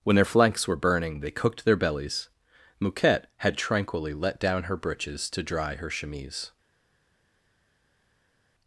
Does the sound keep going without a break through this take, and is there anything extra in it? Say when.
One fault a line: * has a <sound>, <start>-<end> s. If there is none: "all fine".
all fine